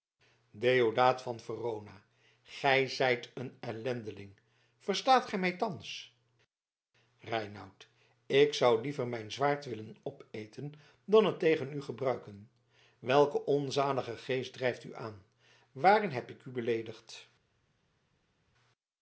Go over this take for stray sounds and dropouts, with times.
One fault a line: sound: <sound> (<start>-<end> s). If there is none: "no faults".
no faults